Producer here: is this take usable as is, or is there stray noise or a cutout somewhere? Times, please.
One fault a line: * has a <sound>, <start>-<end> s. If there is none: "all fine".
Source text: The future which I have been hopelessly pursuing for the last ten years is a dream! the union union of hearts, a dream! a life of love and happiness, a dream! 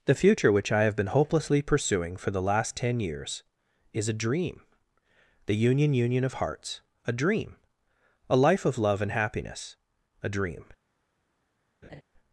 * has a laugh, 11.8-12.0 s